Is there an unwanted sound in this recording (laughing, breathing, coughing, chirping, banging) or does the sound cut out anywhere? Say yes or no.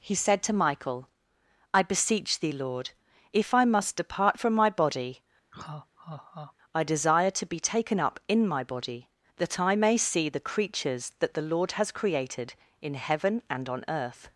yes